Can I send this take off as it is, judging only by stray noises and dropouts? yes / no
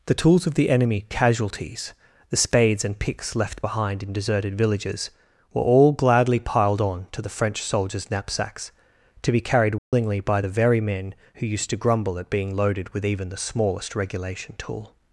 no